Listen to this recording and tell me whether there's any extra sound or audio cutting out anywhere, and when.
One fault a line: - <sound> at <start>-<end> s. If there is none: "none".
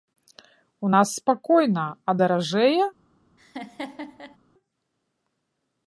- laugh at 3.4-4.4 s